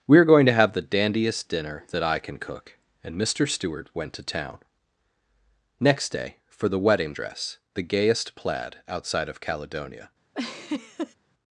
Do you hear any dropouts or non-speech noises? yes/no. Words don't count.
yes